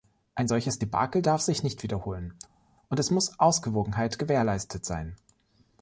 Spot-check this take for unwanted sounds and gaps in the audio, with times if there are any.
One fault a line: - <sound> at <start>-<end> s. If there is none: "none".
none